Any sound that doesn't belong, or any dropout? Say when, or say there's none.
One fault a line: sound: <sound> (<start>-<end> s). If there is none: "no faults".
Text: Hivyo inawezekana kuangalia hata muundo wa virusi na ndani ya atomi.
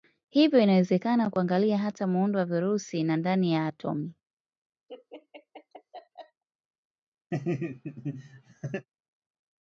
sound: laugh (4.9-6.4 s)
sound: laugh (7.3-8.9 s)